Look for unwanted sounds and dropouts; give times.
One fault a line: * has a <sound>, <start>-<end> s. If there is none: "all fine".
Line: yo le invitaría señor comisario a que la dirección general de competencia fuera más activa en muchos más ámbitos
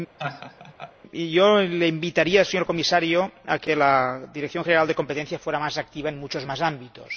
* has a laugh, 0.2-0.9 s